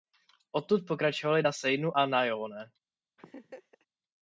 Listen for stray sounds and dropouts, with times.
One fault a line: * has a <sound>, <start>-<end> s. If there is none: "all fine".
* has a laugh, 3.2-3.9 s